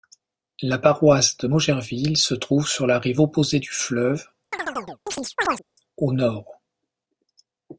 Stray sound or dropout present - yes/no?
yes